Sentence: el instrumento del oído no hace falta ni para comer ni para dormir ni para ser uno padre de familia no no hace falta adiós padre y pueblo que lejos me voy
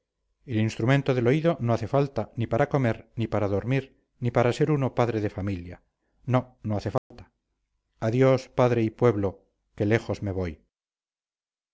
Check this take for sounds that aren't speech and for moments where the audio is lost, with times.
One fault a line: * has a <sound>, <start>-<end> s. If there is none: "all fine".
* has a dropout, 7.0-7.1 s